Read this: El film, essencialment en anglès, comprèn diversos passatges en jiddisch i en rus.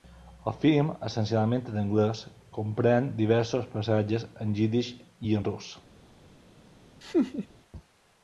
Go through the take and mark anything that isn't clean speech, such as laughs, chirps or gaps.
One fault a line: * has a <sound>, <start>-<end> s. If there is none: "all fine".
* has a laugh, 7.0-7.5 s